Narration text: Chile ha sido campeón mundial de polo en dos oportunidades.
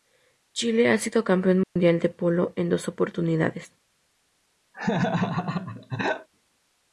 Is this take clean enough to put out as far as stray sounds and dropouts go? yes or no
no